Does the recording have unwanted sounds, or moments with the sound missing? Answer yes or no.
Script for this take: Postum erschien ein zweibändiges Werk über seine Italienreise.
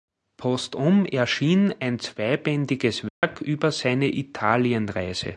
yes